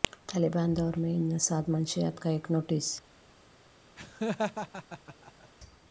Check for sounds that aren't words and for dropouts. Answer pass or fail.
fail